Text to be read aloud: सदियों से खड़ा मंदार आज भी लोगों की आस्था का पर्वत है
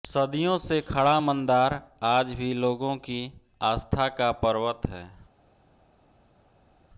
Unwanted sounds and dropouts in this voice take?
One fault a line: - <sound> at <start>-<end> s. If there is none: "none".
none